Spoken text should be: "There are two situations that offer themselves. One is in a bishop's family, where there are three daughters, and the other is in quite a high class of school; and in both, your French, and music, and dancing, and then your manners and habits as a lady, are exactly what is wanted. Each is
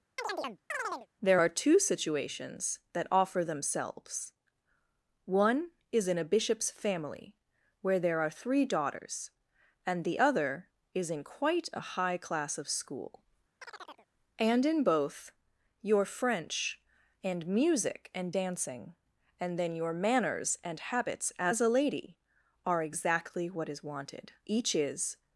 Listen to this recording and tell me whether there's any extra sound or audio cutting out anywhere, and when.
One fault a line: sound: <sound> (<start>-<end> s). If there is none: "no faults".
sound: chirp (0.2-1.1 s)
sound: chirp (13.6-14.1 s)